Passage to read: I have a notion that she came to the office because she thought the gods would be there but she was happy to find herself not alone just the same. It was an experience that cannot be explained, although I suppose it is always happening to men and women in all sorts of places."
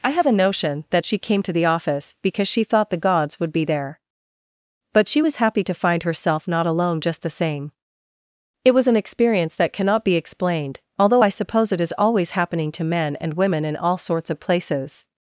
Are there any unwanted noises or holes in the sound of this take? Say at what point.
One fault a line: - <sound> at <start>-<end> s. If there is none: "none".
none